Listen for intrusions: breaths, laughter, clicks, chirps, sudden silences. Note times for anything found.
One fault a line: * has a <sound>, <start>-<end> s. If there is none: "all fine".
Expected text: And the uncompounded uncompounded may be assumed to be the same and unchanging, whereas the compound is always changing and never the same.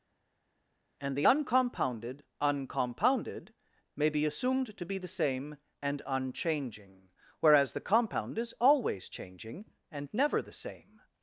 all fine